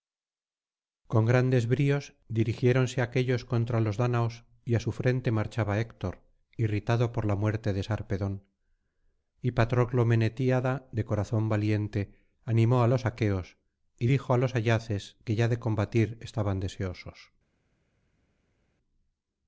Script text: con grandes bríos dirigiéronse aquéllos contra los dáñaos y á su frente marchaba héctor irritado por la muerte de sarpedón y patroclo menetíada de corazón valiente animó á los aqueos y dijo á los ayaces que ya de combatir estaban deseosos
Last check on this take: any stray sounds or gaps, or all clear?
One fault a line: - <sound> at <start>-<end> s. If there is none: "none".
none